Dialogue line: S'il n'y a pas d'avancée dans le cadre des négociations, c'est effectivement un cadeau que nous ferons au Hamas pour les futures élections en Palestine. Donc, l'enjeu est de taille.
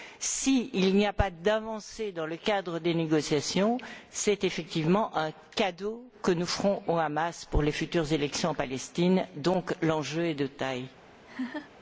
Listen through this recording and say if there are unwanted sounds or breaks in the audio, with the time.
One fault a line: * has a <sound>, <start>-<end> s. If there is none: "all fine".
* has a laugh, 11.2-11.7 s